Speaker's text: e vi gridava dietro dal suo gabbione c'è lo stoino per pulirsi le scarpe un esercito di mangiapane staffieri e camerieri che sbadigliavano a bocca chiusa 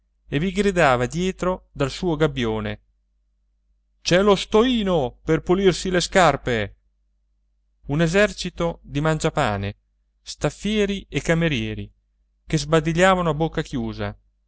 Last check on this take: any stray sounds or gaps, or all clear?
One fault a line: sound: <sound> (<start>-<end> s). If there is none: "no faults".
no faults